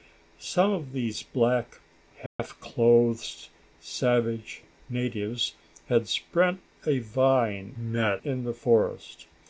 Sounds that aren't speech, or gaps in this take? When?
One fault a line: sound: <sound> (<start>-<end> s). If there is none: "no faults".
sound: dropout (2.3-2.4 s)